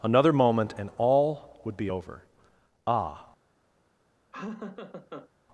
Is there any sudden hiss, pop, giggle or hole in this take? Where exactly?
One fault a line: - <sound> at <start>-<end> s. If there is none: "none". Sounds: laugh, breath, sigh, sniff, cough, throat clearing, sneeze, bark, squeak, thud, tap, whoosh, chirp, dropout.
- laugh at 4.3-5.3 s